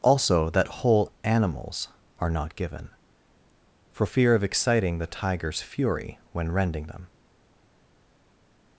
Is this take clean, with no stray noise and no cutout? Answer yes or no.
yes